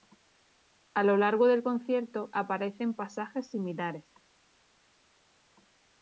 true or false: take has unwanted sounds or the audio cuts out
false